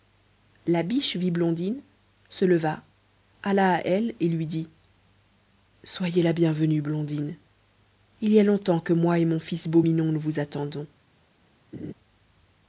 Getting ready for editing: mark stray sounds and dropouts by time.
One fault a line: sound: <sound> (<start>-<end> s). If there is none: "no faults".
sound: laugh (11.7-11.9 s)